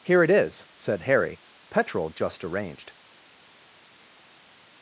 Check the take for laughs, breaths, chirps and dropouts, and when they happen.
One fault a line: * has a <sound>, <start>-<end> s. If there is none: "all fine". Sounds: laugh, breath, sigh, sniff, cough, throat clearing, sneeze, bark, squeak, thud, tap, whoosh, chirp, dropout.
all fine